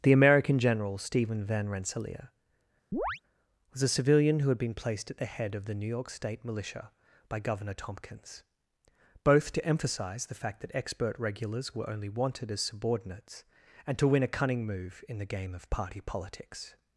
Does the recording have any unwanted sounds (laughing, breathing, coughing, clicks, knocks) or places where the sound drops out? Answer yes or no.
yes